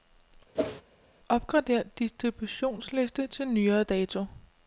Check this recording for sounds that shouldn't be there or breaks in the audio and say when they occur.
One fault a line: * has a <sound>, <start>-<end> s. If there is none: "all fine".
* has a whoosh, 0.5-0.8 s